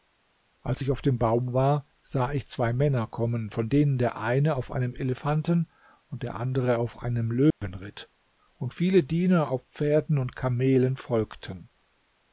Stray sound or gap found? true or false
true